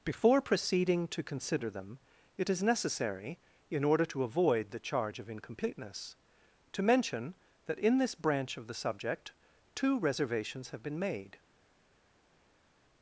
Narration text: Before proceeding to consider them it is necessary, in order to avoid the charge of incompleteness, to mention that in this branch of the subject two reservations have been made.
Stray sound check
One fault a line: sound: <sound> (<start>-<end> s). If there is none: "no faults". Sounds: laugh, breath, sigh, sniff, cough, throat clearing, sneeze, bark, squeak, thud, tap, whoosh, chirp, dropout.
no faults